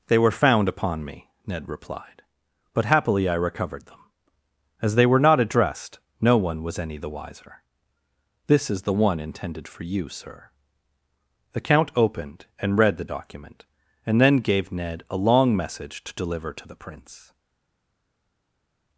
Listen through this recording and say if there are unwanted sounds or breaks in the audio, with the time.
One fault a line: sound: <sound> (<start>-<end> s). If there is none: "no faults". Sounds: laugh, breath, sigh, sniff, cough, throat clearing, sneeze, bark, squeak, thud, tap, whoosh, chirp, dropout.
no faults